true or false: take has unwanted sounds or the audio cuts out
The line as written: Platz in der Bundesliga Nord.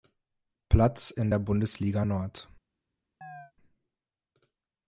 true